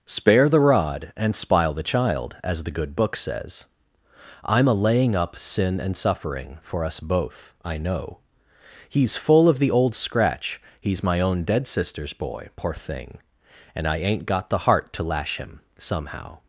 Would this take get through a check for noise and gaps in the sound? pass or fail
pass